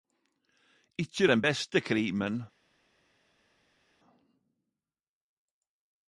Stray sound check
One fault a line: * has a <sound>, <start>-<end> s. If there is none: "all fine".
all fine